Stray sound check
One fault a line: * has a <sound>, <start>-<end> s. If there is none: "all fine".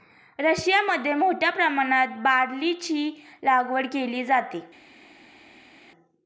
all fine